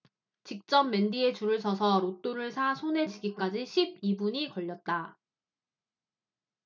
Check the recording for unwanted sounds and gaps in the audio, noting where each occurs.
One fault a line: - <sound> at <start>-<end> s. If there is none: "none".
none